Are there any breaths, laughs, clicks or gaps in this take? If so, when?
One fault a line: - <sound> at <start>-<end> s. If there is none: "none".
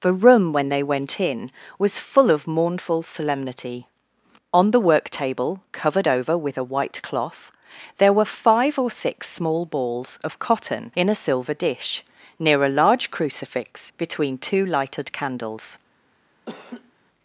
- laugh at 16.5-16.9 s